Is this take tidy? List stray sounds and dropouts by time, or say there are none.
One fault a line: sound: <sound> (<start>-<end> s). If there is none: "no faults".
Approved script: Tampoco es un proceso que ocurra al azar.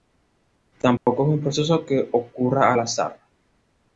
sound: dropout (1.0-1.1 s)